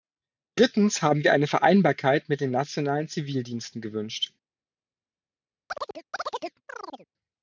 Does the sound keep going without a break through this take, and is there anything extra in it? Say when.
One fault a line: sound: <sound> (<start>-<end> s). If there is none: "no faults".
sound: chirp (5.7-7.1 s)